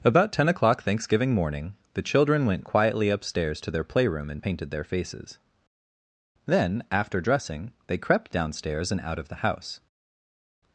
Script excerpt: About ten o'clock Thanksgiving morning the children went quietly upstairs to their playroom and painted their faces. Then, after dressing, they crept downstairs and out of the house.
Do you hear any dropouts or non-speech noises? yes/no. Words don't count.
no